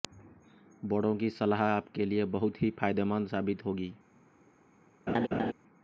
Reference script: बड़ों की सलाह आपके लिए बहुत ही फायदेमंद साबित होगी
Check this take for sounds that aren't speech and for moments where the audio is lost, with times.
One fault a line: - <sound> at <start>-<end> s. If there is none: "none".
- laugh at 5.1-5.5 s